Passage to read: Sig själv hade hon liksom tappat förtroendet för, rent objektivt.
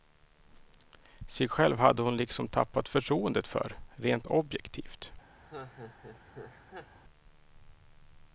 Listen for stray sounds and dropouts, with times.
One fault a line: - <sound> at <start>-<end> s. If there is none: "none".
- laugh at 5.4-7.0 s